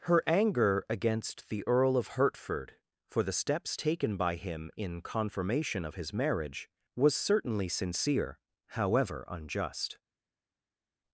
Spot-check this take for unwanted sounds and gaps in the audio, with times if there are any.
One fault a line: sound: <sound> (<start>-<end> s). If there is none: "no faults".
no faults